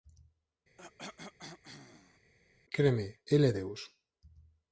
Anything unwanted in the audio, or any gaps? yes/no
yes